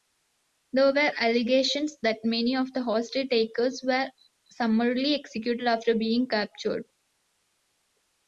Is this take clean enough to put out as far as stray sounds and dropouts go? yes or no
yes